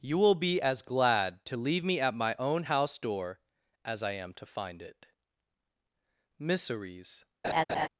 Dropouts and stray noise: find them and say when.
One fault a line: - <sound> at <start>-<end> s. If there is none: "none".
- laugh at 7.4-7.9 s